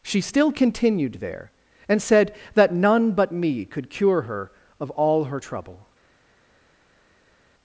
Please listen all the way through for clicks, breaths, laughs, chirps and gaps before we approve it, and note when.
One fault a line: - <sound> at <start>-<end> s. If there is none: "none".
none